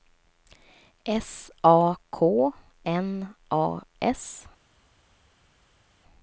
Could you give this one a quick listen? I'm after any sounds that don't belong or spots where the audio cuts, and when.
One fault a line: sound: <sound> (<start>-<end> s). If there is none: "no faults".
no faults